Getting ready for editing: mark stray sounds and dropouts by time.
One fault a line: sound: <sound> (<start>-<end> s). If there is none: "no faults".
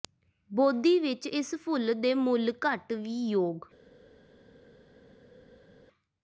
no faults